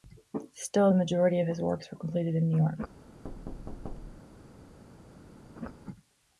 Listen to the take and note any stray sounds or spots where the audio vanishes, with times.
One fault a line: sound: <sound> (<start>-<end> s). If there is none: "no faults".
sound: thud (3.2-4.5 s)
sound: laugh (5.6-5.7 s)